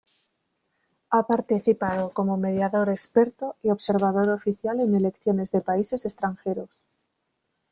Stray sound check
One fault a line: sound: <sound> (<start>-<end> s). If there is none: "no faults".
no faults